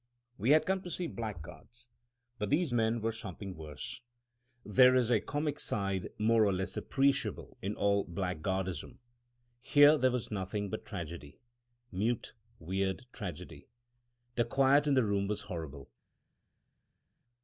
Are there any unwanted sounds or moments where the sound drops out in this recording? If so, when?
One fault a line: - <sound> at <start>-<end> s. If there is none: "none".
none